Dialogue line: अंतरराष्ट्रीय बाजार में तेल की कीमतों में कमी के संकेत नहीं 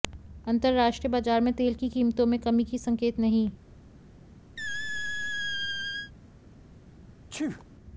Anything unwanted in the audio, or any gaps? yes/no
yes